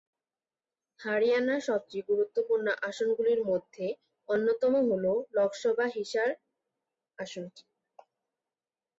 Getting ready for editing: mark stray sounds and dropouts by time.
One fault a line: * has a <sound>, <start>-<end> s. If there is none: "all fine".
all fine